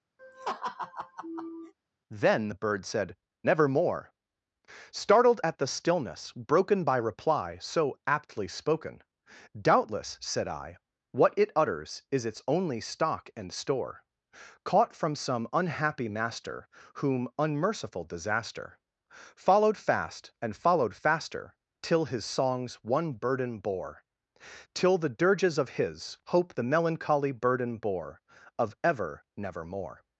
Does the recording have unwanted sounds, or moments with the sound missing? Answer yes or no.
yes